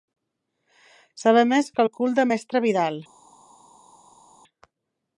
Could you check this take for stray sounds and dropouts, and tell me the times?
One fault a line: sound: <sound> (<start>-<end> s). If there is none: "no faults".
no faults